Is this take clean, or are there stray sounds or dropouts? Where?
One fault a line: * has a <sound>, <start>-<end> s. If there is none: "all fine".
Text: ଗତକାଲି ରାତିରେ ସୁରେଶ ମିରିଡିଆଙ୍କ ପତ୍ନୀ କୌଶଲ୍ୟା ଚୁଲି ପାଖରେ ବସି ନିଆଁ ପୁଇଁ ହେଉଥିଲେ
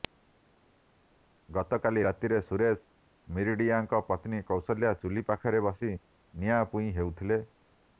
all fine